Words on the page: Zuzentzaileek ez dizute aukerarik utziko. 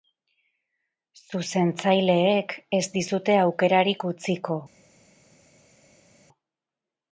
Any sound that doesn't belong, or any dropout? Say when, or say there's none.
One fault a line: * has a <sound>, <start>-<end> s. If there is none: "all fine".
all fine